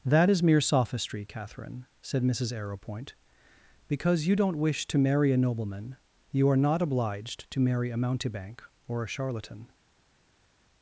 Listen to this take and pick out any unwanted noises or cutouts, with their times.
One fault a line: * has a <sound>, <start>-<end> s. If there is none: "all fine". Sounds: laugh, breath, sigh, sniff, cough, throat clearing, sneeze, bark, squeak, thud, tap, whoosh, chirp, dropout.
all fine